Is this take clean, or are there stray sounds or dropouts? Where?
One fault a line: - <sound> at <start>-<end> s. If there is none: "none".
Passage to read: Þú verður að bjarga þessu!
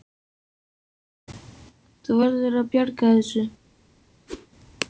- whoosh at 4.3-4.5 s